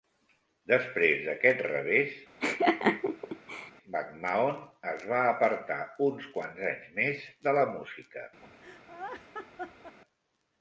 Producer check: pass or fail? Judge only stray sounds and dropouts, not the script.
fail